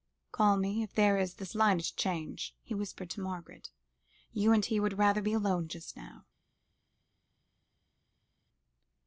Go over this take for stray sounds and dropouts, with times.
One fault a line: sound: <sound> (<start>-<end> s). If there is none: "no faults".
no faults